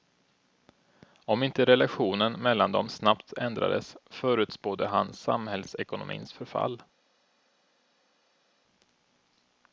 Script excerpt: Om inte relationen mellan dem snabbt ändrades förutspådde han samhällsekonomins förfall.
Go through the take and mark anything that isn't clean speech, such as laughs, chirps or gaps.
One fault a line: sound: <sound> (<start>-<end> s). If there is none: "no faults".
no faults